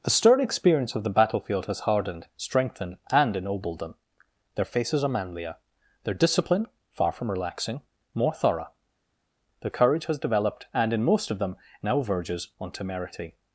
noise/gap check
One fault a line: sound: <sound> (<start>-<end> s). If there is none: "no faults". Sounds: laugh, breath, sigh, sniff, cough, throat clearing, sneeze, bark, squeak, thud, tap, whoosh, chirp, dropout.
no faults